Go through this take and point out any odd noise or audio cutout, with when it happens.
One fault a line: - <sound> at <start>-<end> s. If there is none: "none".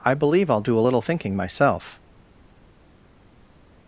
none